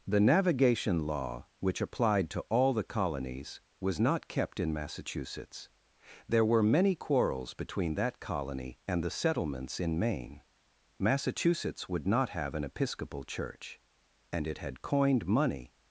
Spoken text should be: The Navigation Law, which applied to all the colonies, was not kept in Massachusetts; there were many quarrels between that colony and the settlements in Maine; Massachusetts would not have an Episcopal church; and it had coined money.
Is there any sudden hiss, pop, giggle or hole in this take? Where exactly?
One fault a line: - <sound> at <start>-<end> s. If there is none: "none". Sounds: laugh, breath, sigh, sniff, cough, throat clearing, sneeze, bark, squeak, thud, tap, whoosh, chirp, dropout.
none